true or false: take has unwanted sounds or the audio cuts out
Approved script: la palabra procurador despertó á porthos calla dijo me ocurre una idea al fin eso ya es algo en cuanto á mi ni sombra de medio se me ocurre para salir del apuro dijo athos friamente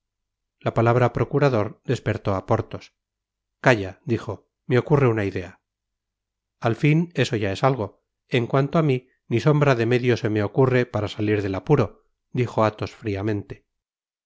false